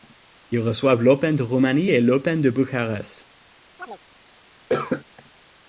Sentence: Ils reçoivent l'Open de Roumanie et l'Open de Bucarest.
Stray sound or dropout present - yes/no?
yes